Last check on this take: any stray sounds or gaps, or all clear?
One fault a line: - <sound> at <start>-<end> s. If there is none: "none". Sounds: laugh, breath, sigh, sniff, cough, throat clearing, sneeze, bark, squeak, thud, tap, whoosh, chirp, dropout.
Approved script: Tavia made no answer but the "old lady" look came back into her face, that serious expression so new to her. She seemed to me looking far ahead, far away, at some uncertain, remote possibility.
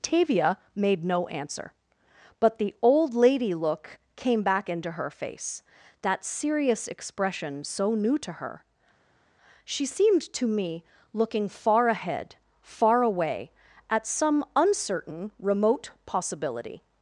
none